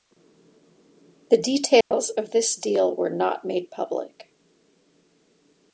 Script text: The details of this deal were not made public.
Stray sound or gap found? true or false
true